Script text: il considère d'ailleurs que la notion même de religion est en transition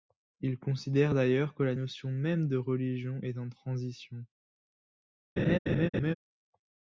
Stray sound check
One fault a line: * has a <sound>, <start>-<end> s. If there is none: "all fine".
* has a laugh, 5.4-6.1 s